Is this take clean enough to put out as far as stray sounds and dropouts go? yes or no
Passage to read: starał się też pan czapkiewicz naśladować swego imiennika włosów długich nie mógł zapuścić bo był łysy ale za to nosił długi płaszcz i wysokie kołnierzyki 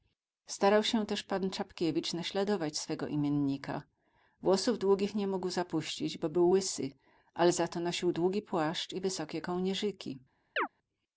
no